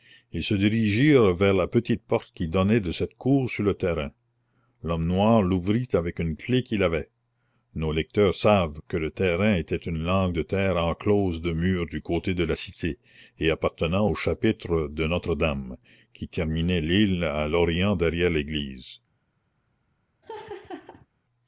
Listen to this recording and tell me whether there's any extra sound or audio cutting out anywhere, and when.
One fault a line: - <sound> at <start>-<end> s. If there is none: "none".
- laugh at 20.2-21.1 s